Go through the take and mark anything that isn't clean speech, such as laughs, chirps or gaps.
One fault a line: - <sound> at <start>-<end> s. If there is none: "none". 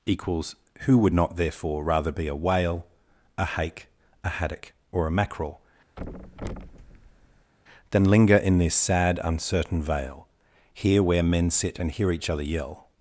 - thud at 6.0-7.5 s